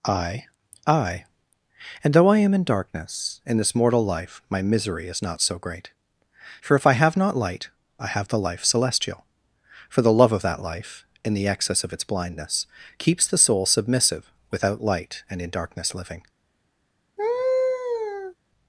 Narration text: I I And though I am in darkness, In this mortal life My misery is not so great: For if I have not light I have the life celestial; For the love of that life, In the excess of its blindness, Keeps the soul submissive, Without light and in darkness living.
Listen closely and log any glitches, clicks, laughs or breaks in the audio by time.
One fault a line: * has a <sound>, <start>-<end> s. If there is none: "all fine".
* has a laugh, 17.2-18.4 s